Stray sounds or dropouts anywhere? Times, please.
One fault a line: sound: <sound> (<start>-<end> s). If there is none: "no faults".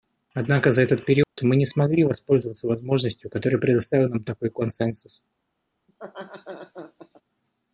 sound: dropout (1.2-1.4 s)
sound: laugh (5.9-7.2 s)